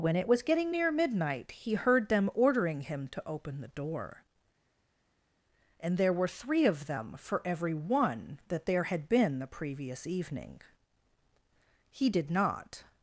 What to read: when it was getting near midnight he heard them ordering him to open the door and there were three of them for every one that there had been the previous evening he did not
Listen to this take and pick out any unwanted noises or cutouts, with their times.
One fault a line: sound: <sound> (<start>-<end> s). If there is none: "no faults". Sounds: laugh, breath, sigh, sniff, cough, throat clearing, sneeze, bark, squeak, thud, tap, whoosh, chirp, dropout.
no faults